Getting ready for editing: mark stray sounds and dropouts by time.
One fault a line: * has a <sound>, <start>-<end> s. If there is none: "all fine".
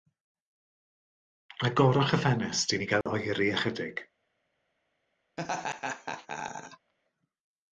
* has a dropout, 3.0-3.1 s
* has a laugh, 5.4-6.9 s